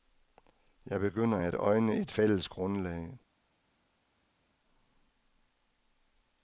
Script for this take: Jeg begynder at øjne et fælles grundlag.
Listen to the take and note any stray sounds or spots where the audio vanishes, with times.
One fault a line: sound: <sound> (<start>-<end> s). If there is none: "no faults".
no faults